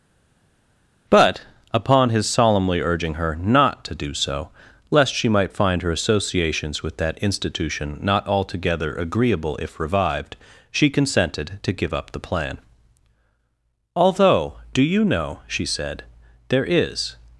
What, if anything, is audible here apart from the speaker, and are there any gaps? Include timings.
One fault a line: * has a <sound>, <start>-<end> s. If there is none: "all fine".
all fine